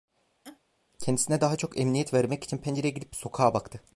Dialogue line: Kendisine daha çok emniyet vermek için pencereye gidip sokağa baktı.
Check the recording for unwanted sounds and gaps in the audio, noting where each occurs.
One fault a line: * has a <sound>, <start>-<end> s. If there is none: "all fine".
* has a laugh, 0.4-0.6 s